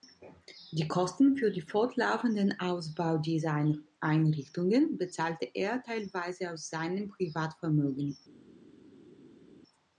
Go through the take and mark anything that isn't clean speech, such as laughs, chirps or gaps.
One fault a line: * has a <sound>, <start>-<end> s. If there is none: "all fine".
all fine